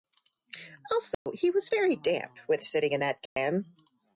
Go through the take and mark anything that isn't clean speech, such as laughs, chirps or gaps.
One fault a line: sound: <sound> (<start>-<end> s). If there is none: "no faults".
sound: dropout (1.1-1.3 s)
sound: dropout (3.3-3.4 s)